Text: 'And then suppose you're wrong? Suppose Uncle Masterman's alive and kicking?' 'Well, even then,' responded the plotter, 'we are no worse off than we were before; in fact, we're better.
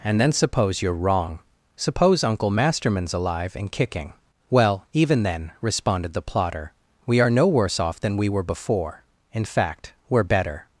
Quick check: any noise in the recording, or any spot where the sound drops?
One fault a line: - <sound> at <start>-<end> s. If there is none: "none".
none